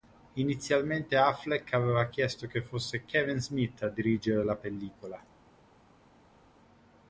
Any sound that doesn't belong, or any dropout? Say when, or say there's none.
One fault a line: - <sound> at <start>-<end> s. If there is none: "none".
none